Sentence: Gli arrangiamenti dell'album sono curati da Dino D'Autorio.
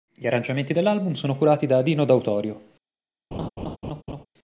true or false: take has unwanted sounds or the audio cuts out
true